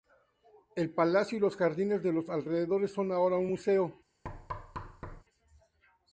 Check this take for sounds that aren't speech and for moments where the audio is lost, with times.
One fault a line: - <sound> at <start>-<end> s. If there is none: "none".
- thud at 4.2-5.2 s